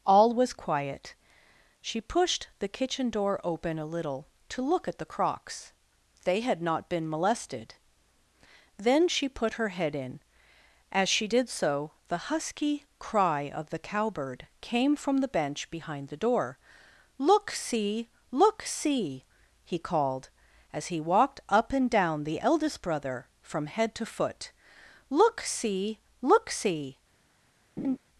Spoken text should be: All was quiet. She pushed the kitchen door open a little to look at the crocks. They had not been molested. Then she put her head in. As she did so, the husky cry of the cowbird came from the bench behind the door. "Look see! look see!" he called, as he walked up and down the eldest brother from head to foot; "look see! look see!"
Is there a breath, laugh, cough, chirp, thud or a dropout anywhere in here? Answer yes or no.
yes